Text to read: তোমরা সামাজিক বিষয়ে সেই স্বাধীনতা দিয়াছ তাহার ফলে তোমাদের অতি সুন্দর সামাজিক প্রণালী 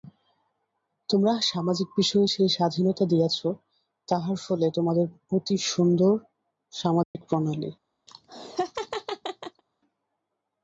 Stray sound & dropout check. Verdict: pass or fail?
fail